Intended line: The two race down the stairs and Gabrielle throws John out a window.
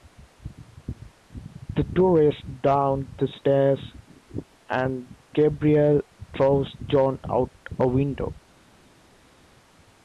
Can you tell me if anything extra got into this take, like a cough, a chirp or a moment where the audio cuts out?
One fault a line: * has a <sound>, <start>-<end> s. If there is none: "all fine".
all fine